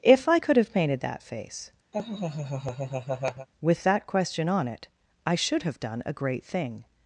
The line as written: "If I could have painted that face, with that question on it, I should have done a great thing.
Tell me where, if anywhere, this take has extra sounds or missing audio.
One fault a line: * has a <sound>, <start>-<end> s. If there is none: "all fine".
* has a laugh, 1.9-3.5 s